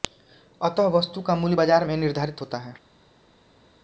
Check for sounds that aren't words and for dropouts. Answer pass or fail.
pass